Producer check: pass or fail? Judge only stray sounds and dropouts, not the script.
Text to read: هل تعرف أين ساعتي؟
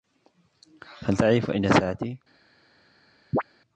fail